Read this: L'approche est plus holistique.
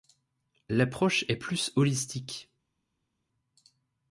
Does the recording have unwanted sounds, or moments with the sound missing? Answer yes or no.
no